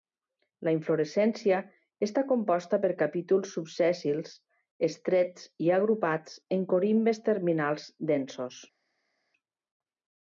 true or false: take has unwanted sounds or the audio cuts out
false